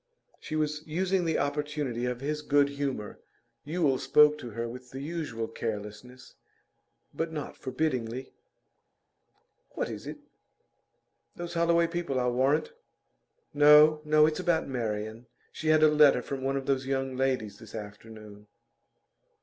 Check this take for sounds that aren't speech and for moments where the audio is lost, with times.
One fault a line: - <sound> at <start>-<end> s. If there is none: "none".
none